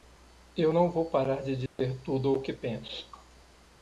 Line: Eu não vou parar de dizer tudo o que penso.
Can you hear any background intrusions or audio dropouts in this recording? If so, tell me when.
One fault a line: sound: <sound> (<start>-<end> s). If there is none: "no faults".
sound: dropout (1.7-1.8 s)